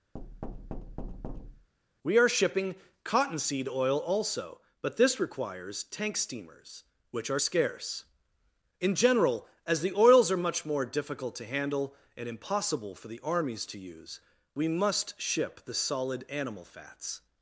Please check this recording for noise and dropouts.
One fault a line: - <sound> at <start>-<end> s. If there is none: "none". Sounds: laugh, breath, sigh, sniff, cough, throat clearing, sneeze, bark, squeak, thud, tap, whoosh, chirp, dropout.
- thud at 0.1-1.7 s